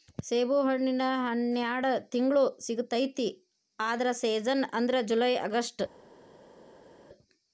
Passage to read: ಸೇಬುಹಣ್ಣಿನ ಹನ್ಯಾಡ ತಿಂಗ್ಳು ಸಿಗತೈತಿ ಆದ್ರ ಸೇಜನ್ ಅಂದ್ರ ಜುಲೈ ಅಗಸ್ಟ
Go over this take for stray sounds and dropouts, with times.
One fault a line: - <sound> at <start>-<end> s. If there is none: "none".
none